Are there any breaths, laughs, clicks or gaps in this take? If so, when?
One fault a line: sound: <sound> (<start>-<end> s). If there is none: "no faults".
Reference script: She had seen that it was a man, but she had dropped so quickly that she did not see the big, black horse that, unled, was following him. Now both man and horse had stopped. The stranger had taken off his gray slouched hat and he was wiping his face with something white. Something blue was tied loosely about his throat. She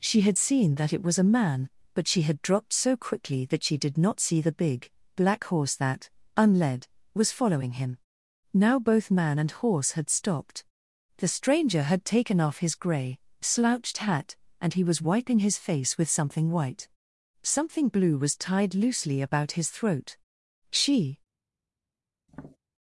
sound: tap (22.3-22.6 s)